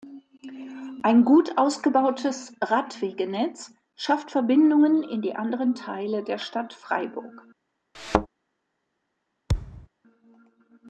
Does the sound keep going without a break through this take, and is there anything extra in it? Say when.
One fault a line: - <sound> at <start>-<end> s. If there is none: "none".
- thud at 7.9-8.3 s
- thud at 9.5-9.9 s